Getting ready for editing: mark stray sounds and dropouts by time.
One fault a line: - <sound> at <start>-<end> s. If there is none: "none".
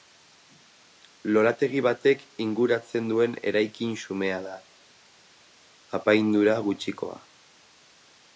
none